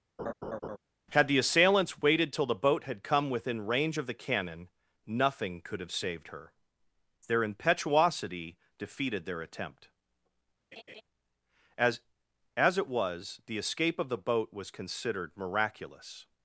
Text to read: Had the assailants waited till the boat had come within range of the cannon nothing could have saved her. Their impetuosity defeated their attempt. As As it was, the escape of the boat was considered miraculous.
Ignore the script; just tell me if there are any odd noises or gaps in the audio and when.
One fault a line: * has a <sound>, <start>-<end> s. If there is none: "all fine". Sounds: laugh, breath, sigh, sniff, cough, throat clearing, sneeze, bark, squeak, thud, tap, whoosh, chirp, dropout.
* has a laugh, 0.2-0.8 s
* has a laugh, 10.7-11.0 s